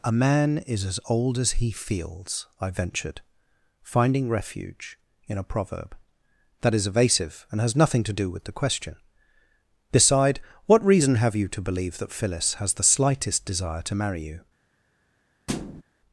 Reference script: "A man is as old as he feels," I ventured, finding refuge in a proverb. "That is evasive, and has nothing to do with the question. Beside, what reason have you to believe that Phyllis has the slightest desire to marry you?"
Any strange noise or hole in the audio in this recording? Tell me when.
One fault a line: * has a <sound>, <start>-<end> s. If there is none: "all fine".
* has a thud, 15.5-15.8 s